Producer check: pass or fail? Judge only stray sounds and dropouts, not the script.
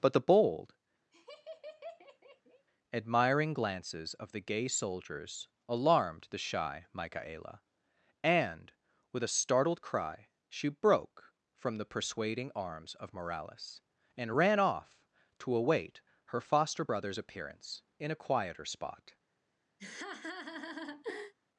fail